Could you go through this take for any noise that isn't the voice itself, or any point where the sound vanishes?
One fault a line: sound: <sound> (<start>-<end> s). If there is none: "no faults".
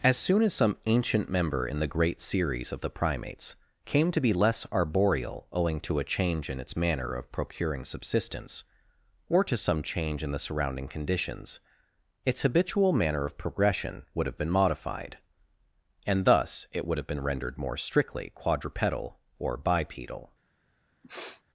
sound: sniff (21.0-21.4 s)